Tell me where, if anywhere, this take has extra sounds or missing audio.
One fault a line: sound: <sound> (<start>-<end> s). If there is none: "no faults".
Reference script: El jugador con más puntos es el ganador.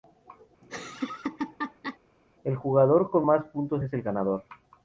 sound: laugh (0.6-2.0 s)